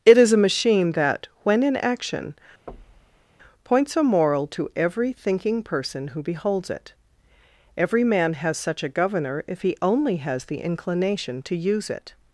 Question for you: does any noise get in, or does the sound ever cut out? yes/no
yes